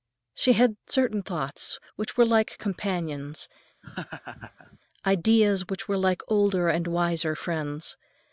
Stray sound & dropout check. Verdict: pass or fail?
fail